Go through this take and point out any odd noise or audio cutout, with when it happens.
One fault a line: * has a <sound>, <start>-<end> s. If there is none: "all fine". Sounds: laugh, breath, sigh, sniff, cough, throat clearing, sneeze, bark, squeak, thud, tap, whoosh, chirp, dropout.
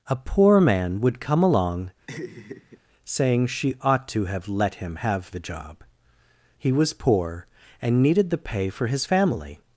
* has a laugh, 2.1-2.8 s